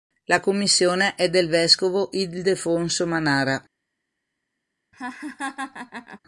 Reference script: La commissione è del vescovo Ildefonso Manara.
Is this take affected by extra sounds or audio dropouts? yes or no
yes